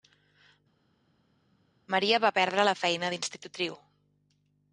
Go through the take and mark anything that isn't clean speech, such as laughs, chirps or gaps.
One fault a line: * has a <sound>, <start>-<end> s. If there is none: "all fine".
all fine